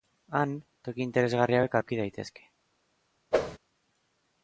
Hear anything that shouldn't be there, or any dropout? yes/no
yes